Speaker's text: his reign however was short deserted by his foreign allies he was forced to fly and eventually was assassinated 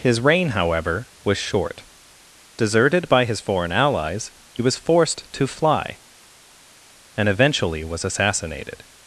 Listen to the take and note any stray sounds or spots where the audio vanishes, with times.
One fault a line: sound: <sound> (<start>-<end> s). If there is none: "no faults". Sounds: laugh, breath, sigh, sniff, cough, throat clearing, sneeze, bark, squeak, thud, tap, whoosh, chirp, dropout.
no faults